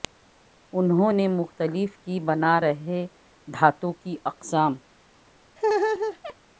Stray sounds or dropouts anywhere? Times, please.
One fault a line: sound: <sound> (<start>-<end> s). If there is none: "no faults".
sound: laugh (5.6-6.3 s)